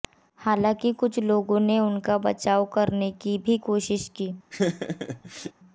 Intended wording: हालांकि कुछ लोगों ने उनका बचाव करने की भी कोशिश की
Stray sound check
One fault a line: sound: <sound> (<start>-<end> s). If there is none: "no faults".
sound: laugh (4.5-5.5 s)